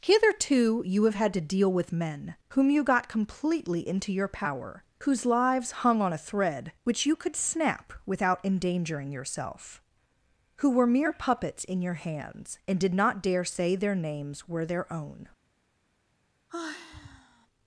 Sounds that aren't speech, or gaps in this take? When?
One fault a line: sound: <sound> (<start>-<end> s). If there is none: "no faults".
sound: sigh (16.5-17.5 s)